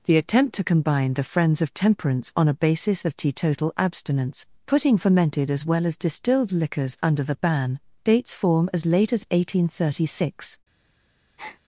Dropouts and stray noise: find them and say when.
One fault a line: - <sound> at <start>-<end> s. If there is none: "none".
- breath at 11.4-11.6 s